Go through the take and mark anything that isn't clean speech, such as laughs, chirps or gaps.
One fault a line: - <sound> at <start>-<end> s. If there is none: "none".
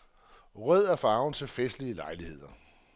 none